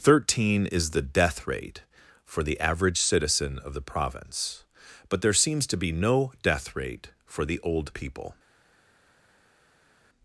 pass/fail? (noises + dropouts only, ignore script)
pass